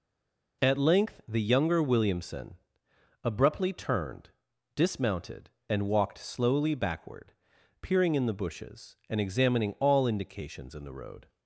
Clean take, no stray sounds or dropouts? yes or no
yes